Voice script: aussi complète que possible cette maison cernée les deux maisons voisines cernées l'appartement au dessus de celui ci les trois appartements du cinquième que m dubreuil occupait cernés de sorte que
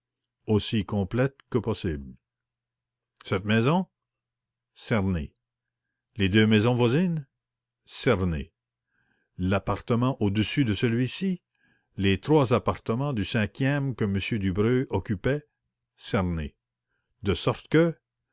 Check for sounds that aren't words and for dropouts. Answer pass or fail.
pass